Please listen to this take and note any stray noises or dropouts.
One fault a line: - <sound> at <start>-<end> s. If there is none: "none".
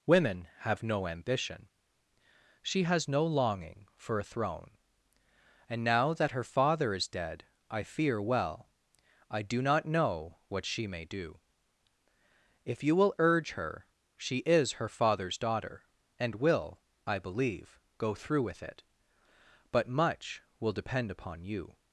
none